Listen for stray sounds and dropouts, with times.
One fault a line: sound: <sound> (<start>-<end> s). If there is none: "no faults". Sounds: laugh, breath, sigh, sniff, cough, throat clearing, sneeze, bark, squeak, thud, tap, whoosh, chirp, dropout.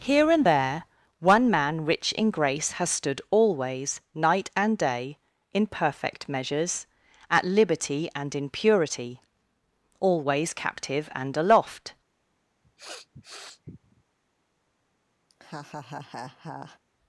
sound: sniff (12.6-14.0 s)
sound: laugh (15.3-16.8 s)